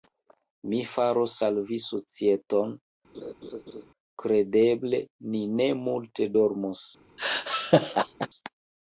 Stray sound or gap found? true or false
true